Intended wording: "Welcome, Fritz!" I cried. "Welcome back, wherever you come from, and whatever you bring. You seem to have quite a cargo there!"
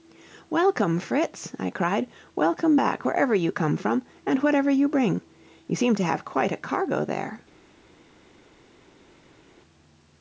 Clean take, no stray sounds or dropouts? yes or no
yes